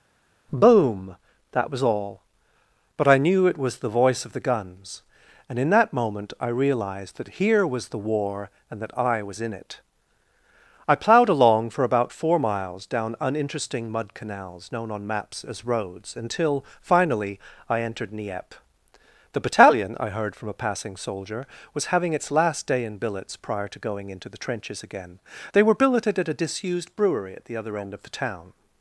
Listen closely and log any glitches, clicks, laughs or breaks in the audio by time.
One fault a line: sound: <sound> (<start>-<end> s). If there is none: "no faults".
no faults